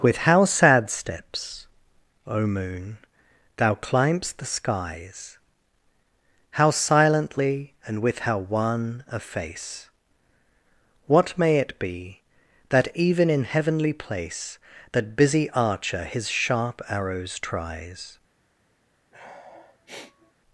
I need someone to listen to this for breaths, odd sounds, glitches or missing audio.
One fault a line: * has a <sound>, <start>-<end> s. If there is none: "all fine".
* has a sniff, 19.1-20.3 s